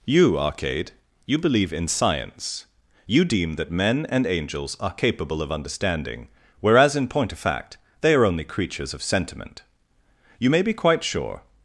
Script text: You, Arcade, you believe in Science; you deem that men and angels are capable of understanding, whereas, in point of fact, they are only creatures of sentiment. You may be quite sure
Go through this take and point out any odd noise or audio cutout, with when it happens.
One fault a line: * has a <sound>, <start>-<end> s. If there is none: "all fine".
all fine